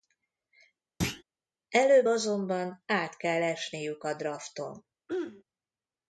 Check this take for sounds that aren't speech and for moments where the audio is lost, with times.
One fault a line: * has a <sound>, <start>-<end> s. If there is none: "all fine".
* has a thud, 1.0-1.2 s
* has a throat clearing, 5.1-5.4 s